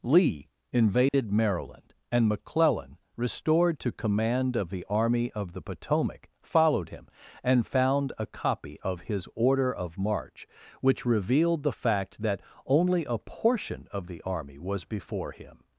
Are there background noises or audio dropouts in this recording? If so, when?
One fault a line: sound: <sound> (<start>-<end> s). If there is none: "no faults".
sound: dropout (1.1-1.1 s)